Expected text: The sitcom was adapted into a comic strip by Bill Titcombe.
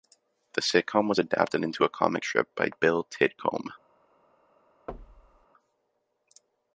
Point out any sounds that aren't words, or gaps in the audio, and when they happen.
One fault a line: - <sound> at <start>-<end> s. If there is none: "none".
- thud at 4.9-5.5 s